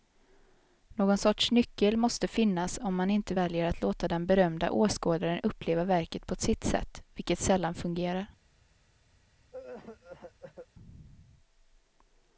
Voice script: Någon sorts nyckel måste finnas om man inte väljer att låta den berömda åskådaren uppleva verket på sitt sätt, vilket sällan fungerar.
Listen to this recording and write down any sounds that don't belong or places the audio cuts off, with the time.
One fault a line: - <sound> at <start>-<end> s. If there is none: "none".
- cough at 9.5-10.7 s